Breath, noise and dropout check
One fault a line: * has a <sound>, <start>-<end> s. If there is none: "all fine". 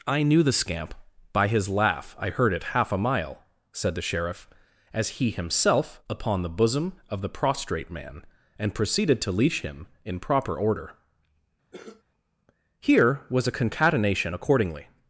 * has a cough, 11.7-12.0 s